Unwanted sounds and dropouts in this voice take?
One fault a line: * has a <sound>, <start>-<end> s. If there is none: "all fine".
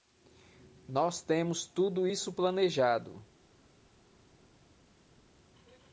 all fine